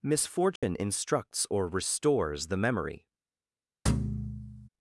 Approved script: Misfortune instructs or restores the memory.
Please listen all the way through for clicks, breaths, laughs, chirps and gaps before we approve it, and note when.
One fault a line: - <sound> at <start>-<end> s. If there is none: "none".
- dropout at 0.6-0.6 s
- thud at 3.9-4.7 s